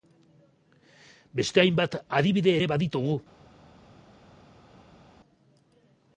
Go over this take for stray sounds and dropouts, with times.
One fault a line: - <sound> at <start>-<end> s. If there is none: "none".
none